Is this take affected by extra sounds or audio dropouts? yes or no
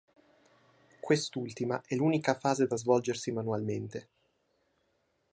no